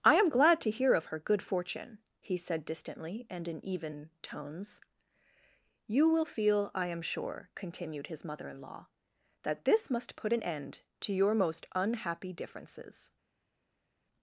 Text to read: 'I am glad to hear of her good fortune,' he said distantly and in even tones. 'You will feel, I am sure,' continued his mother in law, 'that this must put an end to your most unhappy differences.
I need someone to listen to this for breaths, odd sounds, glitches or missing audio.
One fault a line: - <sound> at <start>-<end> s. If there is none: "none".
none